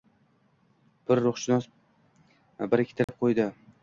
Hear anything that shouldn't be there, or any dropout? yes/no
yes